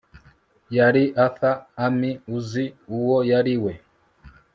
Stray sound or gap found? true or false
false